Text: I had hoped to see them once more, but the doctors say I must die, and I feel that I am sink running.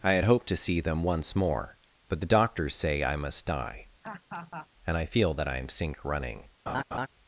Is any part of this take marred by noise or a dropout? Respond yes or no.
yes